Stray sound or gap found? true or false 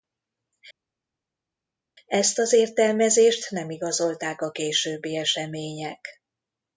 false